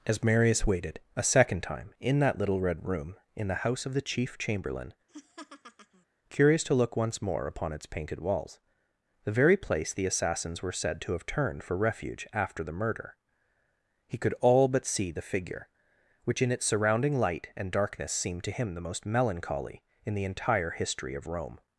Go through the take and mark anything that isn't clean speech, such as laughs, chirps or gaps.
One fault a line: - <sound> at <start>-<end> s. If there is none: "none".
- laugh at 5.1-6.1 s